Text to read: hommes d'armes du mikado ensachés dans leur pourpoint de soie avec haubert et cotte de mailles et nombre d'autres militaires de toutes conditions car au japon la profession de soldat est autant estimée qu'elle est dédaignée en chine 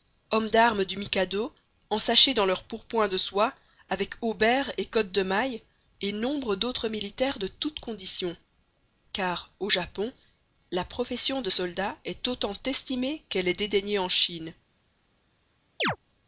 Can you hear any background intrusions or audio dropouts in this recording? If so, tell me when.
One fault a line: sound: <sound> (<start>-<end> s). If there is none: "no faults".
sound: chirp (15.8-16.0 s)